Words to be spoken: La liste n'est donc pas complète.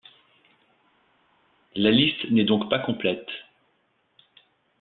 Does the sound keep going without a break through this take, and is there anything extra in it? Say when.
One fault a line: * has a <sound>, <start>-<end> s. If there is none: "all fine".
all fine